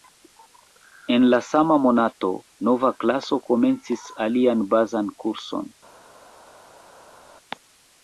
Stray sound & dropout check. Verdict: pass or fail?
pass